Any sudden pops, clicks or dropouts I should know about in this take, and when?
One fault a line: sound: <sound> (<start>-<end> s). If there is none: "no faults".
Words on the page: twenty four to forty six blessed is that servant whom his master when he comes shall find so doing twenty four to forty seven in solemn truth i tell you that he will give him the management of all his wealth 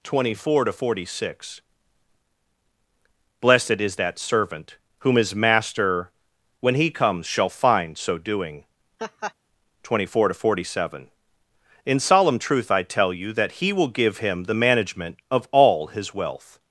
sound: laugh (9.0-9.3 s)